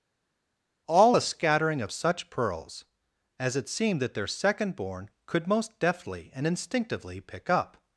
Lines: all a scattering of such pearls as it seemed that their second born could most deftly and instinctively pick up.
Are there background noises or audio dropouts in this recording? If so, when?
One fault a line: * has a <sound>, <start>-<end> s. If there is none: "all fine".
all fine